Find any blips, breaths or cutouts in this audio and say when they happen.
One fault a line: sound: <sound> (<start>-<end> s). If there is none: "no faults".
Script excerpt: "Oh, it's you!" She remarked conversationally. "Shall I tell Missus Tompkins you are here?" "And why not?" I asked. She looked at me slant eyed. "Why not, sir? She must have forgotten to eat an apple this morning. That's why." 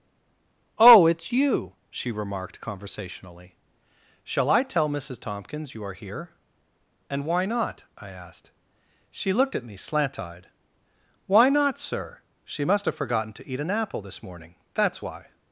no faults